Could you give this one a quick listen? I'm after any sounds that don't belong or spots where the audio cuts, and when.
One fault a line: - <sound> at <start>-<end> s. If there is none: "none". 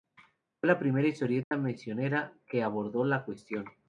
- dropout at 1.4-1.5 s